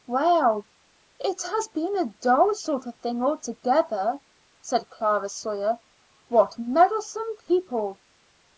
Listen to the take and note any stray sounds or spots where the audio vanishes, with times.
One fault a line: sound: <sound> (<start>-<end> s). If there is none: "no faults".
no faults